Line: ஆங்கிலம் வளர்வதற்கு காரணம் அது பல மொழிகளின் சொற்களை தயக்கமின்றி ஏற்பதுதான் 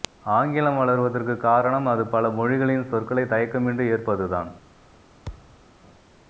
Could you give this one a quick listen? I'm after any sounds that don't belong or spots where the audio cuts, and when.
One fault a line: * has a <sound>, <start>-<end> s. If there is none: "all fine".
* has a thud, 5.3-5.6 s